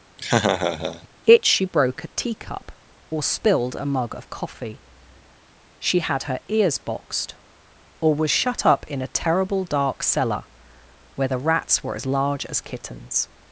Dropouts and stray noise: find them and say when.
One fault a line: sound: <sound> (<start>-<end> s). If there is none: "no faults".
sound: laugh (0.2-1.1 s)